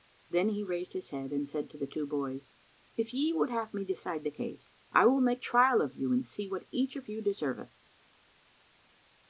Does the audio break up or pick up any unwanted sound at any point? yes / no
no